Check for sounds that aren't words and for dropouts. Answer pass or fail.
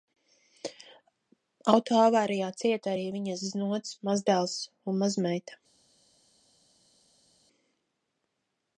pass